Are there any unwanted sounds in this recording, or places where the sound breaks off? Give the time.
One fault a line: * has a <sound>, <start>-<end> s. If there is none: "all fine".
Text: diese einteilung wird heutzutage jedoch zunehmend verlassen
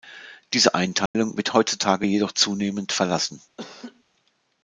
* has a dropout, 1.1-1.1 s
* has a laugh, 3.6-4.0 s